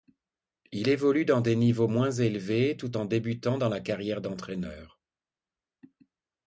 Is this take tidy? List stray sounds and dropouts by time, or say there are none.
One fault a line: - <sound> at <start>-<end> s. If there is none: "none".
none